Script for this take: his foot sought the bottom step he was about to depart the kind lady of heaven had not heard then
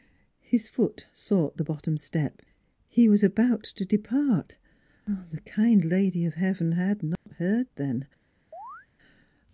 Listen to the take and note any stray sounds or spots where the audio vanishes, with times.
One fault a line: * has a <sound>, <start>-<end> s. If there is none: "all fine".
* has a dropout, 7.2-7.3 s
* has a chirp, 8.5-8.9 s